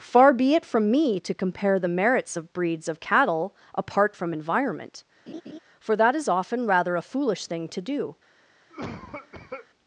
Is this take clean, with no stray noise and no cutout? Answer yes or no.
no